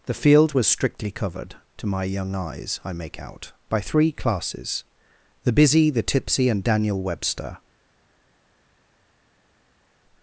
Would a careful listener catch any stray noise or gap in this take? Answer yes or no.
no